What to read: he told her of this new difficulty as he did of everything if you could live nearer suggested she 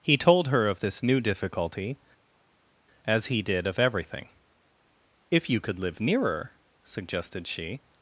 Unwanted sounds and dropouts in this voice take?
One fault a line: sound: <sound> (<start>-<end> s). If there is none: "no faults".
no faults